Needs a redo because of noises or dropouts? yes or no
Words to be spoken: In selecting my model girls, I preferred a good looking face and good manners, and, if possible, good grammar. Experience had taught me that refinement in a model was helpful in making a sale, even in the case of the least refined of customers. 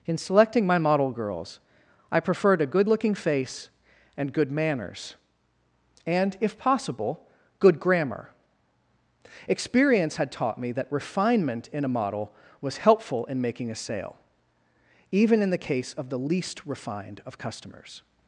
no